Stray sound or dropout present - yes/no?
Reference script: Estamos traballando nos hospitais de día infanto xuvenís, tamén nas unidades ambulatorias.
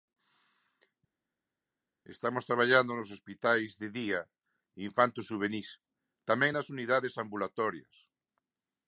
no